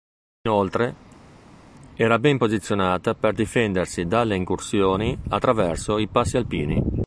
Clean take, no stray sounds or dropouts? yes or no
yes